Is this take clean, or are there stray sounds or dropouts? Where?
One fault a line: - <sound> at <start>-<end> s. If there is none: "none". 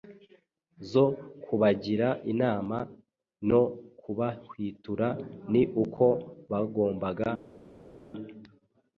none